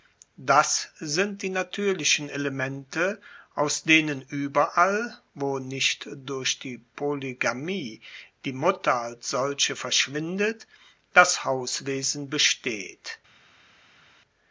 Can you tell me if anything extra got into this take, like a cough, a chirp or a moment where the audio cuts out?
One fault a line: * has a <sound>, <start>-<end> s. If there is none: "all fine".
all fine